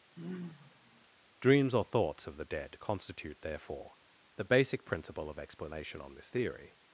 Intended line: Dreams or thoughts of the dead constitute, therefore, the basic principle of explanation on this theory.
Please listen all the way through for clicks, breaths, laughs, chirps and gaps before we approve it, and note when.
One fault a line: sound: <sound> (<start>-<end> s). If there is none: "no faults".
sound: sigh (0.2-1.1 s)